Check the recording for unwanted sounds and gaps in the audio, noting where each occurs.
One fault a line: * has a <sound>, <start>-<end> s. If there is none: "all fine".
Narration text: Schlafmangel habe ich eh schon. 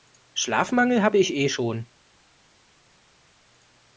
all fine